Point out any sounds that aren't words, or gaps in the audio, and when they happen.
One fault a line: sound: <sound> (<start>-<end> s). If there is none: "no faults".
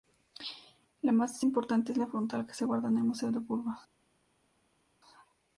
no faults